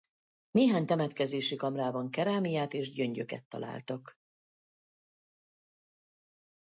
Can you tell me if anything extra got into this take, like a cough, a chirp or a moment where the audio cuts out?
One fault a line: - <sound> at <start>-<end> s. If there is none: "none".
none